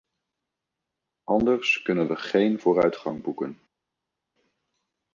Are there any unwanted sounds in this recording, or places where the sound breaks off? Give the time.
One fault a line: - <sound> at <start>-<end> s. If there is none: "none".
none